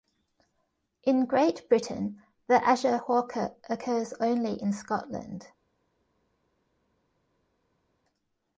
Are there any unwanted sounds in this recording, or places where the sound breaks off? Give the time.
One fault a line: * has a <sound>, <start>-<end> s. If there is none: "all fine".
all fine